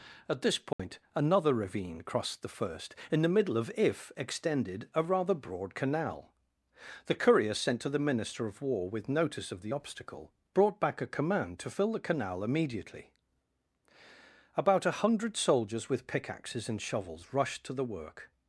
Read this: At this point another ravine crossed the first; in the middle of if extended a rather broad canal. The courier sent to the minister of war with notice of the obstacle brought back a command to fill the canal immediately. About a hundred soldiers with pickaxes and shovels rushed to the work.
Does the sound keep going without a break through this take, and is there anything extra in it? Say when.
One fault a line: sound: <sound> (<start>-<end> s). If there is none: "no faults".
sound: dropout (0.7-0.8 s)